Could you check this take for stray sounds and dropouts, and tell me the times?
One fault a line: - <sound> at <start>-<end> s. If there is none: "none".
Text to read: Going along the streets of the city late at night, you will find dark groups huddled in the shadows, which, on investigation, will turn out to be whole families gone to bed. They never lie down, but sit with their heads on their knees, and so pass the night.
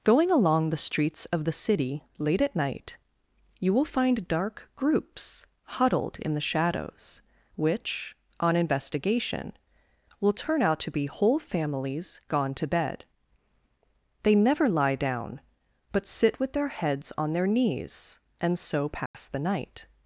- dropout at 19.1-19.1 s